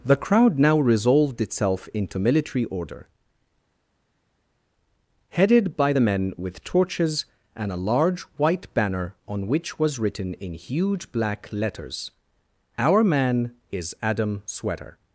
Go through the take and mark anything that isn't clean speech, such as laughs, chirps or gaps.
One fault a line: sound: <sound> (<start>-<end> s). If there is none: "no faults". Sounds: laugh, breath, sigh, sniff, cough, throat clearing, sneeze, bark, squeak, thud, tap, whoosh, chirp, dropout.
no faults